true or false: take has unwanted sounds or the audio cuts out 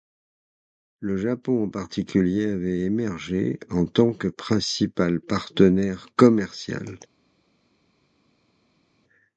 false